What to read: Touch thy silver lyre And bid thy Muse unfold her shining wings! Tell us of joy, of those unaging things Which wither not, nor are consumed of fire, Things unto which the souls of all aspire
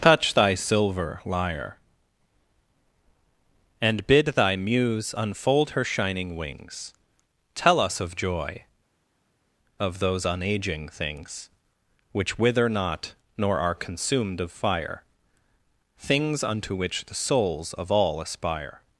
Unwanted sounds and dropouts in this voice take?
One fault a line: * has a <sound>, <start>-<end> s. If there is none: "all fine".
all fine